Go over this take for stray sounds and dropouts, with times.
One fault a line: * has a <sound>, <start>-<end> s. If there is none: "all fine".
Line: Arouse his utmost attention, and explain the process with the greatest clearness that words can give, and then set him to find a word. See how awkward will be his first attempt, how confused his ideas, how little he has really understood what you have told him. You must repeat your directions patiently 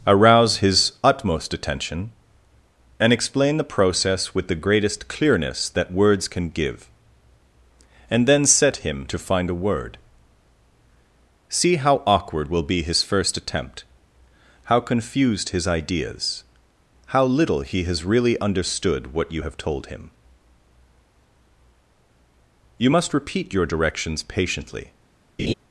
* has a laugh, 25.4-25.5 s